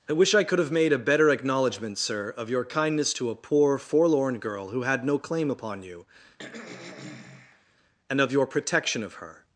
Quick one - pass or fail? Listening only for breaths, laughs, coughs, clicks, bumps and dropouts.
fail